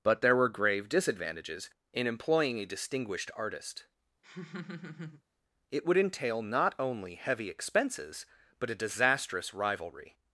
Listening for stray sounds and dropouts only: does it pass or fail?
fail